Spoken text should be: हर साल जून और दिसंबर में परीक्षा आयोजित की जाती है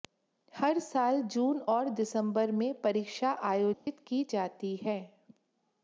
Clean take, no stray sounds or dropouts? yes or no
no